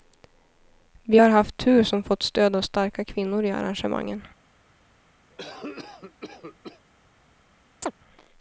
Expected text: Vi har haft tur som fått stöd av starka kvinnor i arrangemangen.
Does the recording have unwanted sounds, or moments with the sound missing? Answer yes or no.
yes